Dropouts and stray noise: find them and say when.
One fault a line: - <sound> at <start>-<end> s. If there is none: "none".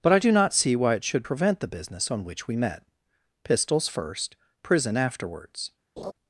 - laugh at 6.0-6.1 s